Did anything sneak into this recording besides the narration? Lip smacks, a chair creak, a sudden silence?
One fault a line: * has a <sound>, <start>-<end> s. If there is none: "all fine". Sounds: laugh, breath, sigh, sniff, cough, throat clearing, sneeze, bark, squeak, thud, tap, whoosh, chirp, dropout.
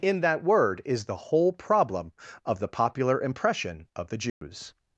* has a dropout, 4.3-4.4 s